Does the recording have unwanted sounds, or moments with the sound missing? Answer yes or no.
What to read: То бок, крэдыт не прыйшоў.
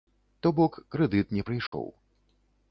yes